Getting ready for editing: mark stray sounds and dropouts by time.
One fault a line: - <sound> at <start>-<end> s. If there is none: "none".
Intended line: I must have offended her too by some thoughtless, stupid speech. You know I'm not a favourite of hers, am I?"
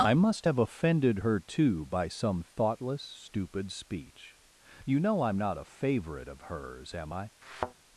- thud at 7.4-7.7 s